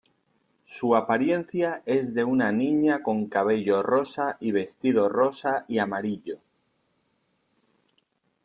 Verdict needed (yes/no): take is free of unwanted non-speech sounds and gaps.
yes